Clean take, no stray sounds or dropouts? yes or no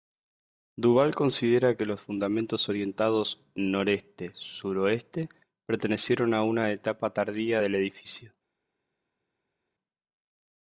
yes